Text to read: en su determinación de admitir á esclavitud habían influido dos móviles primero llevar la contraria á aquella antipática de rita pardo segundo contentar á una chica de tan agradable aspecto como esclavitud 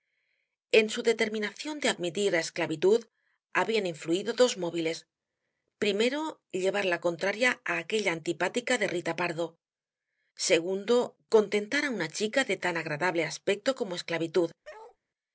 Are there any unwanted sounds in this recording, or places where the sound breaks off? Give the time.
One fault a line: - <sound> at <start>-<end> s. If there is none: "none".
- bark at 14.6-15.0 s